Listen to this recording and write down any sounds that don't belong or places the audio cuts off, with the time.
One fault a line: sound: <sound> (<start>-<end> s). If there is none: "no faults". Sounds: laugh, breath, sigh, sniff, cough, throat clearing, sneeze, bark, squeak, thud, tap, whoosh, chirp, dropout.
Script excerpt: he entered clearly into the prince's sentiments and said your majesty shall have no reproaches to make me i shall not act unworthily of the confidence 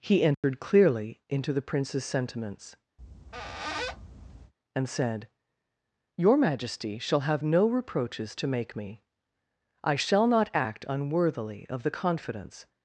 sound: dropout (0.3-0.4 s)
sound: squeak (3.0-4.5 s)